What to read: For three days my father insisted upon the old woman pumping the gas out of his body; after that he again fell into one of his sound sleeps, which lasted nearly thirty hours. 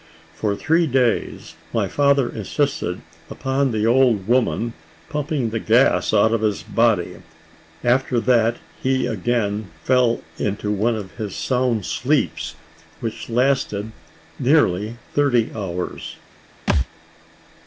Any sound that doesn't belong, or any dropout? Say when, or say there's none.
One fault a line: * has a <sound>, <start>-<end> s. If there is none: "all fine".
* has a thud, 16.7-16.9 s